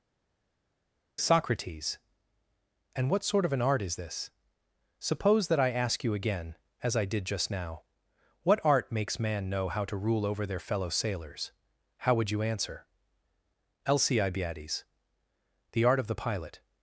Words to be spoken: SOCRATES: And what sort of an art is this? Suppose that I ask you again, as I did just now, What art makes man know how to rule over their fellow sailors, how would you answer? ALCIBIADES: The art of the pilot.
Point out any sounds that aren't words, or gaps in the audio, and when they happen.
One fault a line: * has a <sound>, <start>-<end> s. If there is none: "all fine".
all fine